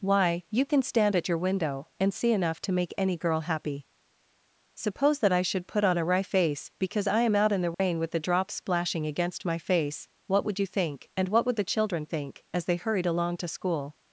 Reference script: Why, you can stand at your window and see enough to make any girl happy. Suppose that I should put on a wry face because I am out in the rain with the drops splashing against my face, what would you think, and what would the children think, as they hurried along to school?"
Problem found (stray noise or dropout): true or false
true